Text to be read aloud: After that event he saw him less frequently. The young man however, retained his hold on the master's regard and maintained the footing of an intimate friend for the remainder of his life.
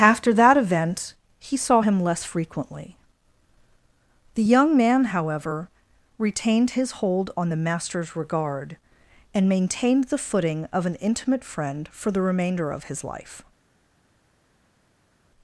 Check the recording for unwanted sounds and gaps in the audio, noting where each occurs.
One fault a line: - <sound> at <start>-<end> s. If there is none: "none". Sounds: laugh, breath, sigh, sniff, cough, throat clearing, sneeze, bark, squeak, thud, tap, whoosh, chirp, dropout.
none